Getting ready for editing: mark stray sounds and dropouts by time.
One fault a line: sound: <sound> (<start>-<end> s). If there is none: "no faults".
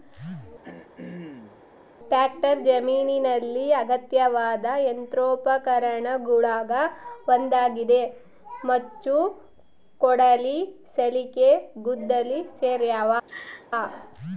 sound: throat clearing (0.6-1.6 s)
sound: laugh (13.3-13.7 s)